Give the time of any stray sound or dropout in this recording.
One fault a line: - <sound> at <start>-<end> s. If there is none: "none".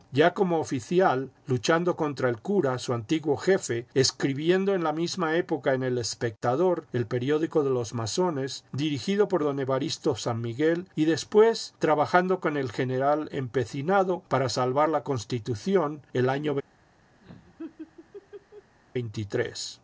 - laugh at 17.2-18.8 s